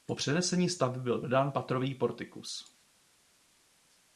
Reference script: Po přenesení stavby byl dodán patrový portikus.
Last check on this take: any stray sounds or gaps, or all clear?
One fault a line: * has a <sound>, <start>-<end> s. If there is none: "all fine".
all fine